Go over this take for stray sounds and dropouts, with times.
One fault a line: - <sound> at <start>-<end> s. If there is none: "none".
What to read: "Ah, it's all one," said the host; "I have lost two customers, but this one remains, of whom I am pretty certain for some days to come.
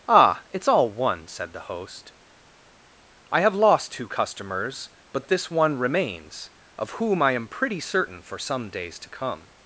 none